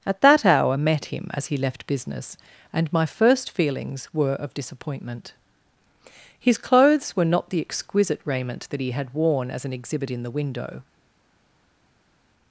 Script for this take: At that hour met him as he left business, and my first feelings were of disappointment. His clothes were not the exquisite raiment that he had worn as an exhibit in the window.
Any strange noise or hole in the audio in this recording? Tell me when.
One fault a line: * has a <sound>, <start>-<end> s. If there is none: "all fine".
all fine